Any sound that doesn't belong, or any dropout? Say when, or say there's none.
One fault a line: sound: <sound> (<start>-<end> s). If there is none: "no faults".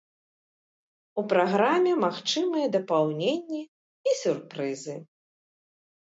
no faults